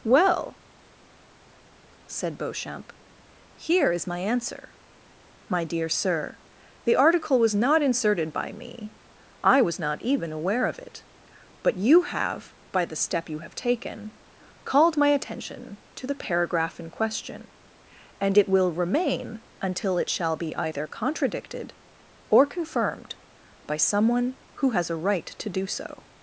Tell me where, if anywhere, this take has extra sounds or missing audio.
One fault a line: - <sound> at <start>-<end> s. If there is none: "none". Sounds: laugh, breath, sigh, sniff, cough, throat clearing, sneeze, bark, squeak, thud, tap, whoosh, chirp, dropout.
none